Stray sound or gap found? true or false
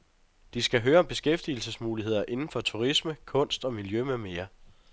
false